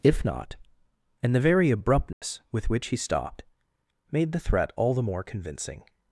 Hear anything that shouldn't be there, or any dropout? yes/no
yes